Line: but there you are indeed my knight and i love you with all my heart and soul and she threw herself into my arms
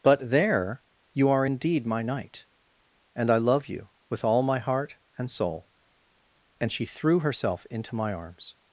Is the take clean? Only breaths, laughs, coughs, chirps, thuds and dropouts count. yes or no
yes